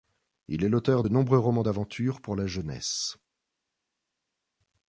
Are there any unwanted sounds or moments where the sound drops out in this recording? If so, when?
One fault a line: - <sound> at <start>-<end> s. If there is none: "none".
none